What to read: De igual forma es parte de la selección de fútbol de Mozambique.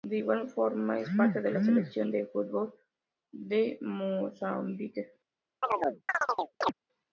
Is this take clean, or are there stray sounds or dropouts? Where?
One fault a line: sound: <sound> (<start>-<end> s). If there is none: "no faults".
sound: chirp (5.6-6.7 s)